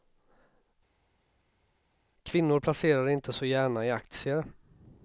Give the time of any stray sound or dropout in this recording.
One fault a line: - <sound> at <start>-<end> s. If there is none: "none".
none